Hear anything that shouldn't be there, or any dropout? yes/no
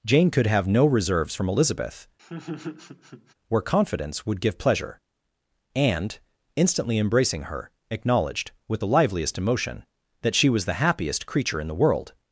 yes